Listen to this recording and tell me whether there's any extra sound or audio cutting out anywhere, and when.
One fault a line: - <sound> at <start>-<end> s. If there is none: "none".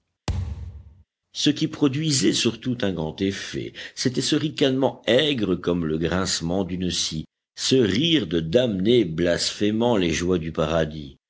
- thud at 0.3-1.0 s